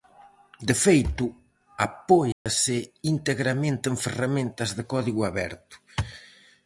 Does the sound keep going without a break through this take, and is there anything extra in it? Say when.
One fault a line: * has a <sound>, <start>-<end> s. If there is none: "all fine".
* has a dropout, 2.3-2.5 s